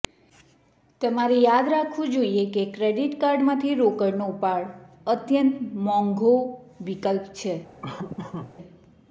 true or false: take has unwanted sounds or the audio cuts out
true